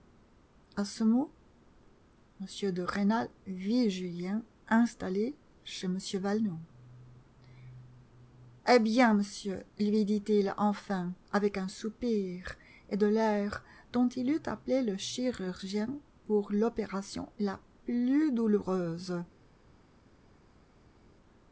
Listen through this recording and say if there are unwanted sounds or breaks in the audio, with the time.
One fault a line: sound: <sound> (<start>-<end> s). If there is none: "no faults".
no faults